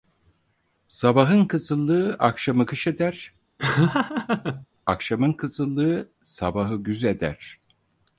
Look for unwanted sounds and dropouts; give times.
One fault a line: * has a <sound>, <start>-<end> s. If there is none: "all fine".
* has a laugh, 3.6-4.7 s